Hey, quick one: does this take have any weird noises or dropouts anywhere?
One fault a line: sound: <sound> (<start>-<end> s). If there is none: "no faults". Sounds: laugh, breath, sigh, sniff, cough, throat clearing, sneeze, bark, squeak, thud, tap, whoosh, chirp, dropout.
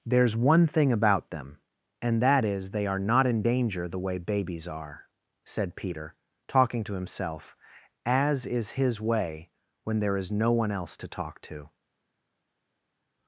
no faults